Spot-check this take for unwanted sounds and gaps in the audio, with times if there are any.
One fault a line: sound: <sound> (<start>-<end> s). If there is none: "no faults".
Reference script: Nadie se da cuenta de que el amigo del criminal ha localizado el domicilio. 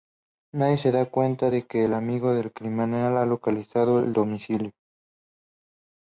no faults